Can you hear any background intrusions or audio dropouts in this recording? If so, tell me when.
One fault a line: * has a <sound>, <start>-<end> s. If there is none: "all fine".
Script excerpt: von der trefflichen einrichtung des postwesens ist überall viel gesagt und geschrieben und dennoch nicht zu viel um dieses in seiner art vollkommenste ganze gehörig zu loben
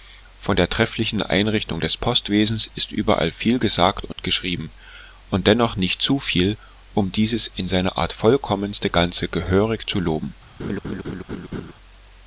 * has a dropout, 4.1-4.2 s
* has a laugh, 10.6-11.7 s